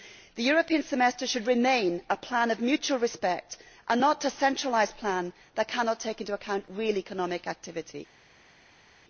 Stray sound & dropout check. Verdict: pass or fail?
pass